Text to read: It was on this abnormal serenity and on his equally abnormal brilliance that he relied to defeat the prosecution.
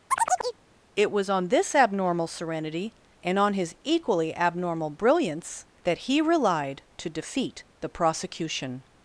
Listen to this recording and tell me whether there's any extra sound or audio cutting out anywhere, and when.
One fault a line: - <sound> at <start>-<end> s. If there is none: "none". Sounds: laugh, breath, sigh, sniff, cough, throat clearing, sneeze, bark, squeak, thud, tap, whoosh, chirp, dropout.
- chirp at 0.1-0.6 s